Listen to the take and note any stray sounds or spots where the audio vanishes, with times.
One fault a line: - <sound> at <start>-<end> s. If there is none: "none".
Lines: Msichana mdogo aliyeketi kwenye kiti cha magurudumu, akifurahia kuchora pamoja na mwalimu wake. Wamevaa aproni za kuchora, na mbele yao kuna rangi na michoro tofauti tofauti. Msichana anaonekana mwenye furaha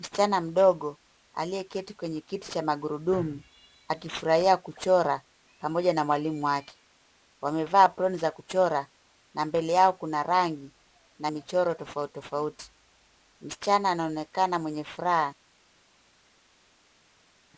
none